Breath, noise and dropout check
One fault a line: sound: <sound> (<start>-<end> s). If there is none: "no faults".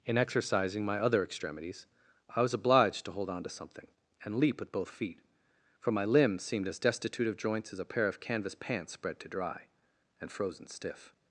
no faults